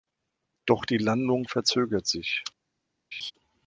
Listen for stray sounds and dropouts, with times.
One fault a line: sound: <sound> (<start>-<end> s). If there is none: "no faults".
sound: laugh (3.1-3.3 s)